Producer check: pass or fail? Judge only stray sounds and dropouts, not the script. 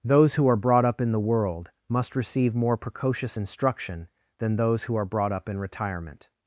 pass